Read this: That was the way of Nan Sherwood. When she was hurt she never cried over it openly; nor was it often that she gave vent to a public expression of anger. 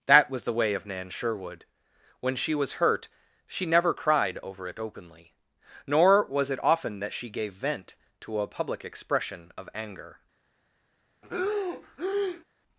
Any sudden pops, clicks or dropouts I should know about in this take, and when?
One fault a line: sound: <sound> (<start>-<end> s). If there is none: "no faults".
sound: breath (11.2-12.4 s)